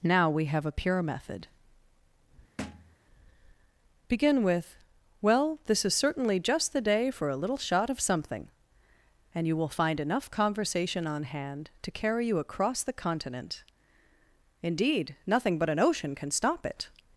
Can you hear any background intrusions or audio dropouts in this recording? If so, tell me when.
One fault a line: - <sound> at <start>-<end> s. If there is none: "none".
- thud at 2.6-3.0 s